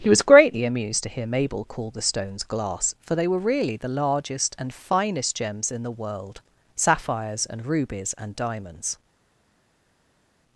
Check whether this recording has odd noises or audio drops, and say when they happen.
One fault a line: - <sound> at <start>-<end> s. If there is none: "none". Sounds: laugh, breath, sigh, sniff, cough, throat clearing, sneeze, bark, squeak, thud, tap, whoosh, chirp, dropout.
none